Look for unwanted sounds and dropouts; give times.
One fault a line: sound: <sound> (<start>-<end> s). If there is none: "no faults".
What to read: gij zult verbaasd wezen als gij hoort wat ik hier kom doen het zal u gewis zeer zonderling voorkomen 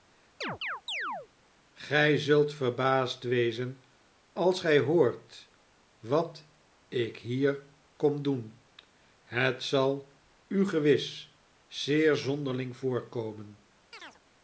sound: chirp (0.4-1.3 s)
sound: chirp (13.9-14.2 s)